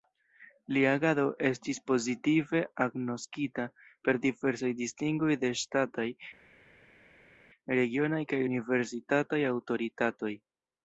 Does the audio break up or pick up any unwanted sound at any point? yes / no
no